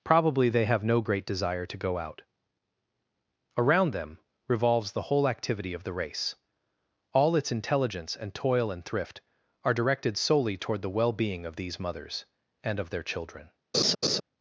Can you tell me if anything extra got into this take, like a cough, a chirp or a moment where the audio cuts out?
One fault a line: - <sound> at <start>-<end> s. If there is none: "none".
- laugh at 13.7-14.2 s